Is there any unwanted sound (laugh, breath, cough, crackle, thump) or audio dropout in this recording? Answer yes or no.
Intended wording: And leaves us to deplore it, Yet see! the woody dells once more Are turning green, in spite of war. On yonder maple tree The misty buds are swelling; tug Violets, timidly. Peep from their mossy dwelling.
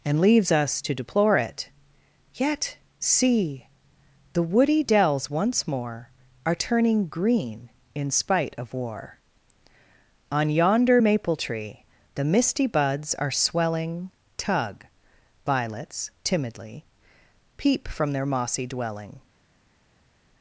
no